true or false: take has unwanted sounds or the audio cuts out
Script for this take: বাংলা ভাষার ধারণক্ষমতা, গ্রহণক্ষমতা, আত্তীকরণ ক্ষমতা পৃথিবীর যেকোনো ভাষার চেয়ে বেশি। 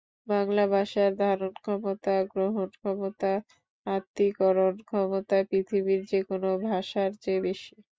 false